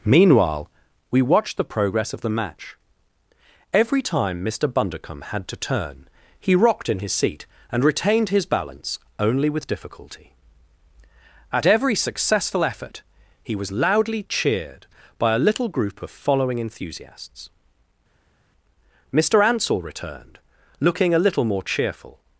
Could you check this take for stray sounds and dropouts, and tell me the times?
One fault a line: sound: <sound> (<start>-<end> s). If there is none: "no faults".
no faults